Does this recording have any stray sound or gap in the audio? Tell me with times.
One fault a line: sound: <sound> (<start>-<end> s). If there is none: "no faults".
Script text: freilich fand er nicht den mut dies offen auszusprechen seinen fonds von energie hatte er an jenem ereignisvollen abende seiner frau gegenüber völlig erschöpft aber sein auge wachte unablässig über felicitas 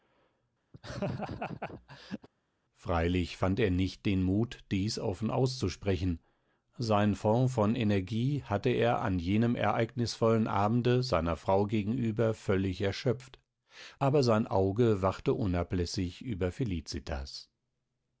sound: laugh (0.7-2.3 s)